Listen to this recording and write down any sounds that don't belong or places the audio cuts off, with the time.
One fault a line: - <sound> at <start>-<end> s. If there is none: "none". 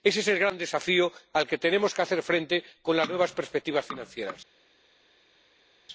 none